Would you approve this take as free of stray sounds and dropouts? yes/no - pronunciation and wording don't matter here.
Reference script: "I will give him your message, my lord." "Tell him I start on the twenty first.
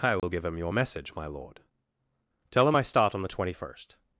no